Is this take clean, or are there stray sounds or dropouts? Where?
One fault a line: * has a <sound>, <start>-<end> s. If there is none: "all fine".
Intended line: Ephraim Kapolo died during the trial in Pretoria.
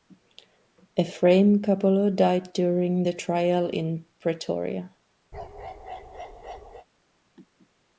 * has a bark, 5.3-6.9 s